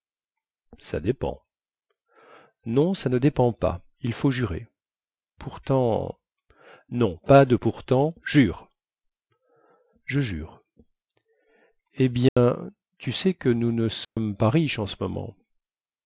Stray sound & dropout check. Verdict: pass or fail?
fail